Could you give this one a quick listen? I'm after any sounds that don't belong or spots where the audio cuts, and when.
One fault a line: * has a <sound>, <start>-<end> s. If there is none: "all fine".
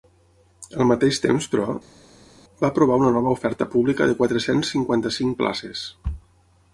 all fine